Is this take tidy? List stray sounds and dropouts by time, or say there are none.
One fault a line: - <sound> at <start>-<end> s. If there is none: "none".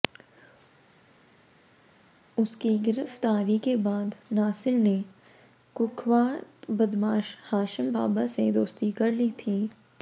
none